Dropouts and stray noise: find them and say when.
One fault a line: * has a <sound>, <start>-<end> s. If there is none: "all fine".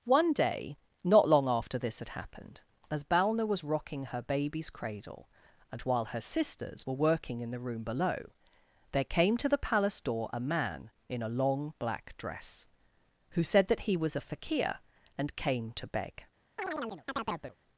* has a chirp, 16.6-17.6 s